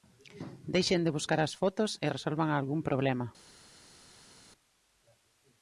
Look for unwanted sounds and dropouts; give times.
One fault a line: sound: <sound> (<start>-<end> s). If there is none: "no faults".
no faults